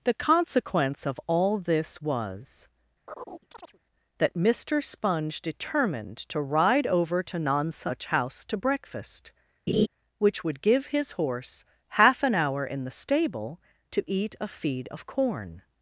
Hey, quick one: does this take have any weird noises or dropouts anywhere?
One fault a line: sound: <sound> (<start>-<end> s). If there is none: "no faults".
sound: chirp (3.1-3.8 s)
sound: laugh (9.7-9.9 s)